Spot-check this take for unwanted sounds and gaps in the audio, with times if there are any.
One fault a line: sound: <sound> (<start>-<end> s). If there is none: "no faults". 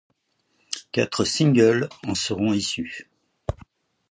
no faults